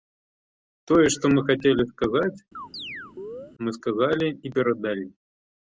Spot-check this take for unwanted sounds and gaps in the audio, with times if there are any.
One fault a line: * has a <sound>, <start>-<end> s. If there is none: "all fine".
* has a chirp, 2.5-3.5 s